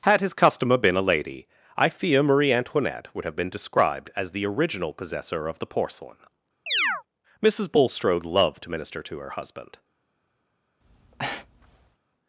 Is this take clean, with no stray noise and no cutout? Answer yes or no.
no